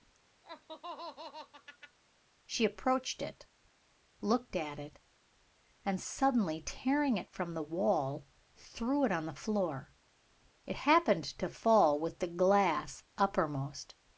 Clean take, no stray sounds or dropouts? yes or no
no